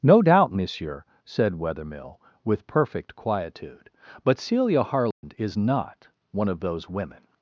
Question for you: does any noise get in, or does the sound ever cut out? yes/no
yes